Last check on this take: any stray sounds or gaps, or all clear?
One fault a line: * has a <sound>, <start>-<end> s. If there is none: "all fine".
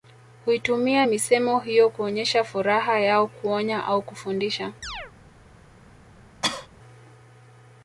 * has a chirp, 4.8-5.1 s
* has a cough, 6.4-6.7 s